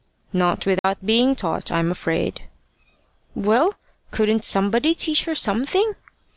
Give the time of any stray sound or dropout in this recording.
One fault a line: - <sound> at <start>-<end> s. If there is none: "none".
- dropout at 0.8-0.8 s